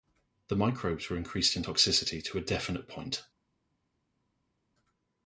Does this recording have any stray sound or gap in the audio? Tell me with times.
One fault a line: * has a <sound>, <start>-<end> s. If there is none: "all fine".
all fine